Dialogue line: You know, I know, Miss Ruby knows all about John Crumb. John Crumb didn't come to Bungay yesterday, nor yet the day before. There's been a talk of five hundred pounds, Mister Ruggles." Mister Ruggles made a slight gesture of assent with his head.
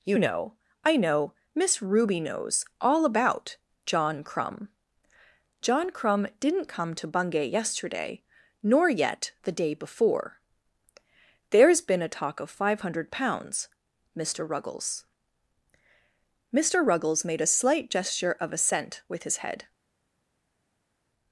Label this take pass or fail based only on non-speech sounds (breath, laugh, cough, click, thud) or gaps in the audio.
pass